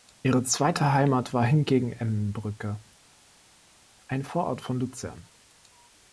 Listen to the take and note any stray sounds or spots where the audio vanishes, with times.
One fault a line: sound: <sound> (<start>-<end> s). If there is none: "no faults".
no faults